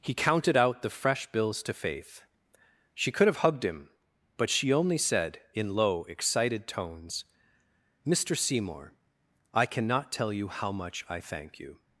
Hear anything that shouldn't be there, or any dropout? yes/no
no